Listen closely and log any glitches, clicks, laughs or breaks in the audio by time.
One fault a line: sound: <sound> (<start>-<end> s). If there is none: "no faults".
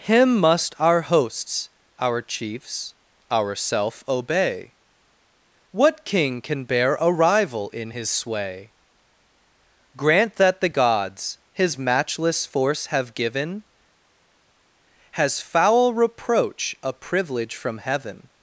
no faults